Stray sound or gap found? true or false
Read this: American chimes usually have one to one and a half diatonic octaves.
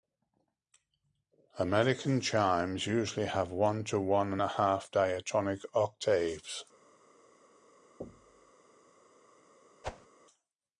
true